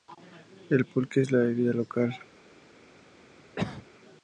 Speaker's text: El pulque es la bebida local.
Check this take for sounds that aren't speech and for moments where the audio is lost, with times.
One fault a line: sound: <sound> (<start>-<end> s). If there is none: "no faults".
sound: cough (3.6-3.9 s)